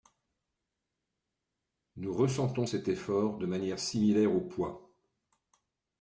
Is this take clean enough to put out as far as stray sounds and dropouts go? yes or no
yes